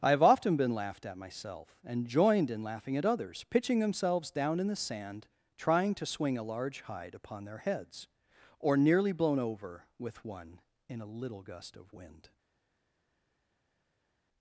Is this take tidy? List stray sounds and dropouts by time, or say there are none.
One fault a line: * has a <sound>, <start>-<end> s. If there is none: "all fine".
all fine